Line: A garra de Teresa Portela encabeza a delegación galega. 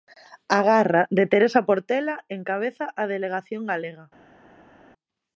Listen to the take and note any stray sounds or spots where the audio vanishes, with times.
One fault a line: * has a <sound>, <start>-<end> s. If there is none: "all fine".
all fine